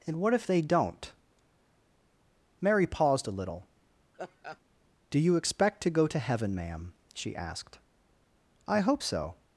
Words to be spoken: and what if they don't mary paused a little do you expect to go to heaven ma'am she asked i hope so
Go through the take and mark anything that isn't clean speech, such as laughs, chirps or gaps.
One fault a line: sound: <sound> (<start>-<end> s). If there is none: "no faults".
sound: laugh (4.1-4.6 s)